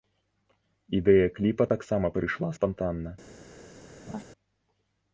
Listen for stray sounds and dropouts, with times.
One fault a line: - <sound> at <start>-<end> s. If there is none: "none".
- laugh at 4.1-4.2 s